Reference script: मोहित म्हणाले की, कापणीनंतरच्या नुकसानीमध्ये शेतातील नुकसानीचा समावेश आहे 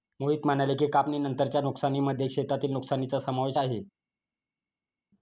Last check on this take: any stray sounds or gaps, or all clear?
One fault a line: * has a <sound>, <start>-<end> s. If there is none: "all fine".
all fine